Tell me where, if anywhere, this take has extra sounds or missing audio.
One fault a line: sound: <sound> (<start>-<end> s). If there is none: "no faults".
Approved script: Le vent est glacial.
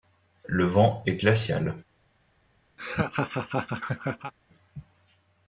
sound: laugh (2.8-4.3 s)